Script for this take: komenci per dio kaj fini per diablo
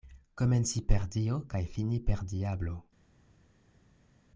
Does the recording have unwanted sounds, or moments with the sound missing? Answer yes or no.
no